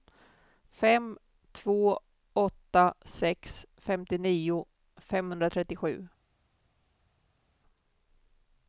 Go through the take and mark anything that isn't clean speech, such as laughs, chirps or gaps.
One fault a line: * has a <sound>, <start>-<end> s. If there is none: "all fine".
all fine